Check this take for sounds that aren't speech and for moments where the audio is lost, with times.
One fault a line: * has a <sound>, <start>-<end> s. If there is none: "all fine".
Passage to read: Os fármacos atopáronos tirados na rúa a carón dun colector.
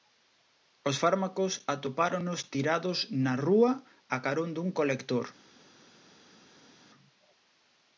all fine